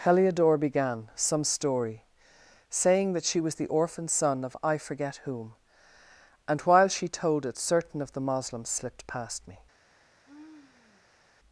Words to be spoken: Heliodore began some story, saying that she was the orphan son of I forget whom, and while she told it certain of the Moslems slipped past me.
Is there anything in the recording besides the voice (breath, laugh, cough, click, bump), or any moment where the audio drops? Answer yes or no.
yes